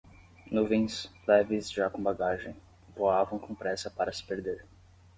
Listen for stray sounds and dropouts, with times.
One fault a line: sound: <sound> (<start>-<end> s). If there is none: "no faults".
no faults